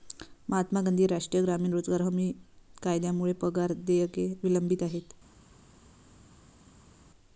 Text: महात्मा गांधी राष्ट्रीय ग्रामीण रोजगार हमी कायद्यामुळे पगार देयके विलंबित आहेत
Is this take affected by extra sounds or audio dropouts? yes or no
no